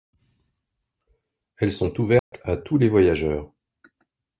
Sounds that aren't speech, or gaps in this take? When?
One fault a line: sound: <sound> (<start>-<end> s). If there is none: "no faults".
sound: dropout (2.2-2.3 s)